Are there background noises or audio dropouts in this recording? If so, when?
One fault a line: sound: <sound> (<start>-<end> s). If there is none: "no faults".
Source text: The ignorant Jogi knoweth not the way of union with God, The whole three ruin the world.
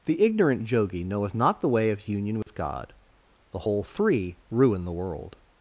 sound: dropout (2.4-2.5 s)